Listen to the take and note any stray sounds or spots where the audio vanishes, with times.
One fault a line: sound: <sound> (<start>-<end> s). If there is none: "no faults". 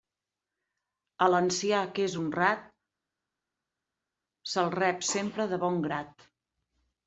no faults